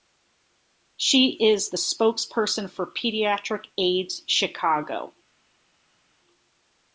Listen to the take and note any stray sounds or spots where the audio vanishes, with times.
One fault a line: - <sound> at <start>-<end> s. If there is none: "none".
none